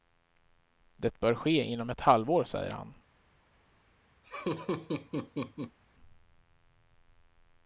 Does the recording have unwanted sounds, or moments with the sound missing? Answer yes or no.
yes